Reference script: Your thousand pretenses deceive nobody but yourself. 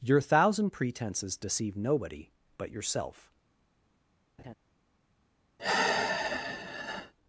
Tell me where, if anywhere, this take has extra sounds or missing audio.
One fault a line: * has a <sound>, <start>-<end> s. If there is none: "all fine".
* has a laugh, 4.4-4.5 s
* has a sigh, 5.6-7.1 s